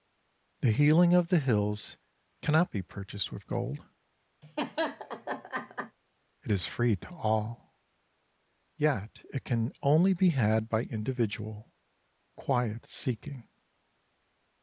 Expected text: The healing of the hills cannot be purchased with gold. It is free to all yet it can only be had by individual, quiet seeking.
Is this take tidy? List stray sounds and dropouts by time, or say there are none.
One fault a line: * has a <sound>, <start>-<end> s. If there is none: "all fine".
* has a laugh, 4.4-6.0 s